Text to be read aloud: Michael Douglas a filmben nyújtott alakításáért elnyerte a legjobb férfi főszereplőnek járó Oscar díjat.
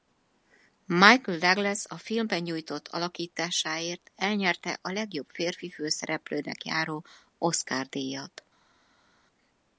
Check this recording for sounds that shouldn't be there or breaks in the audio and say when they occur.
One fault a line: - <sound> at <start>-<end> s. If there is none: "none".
none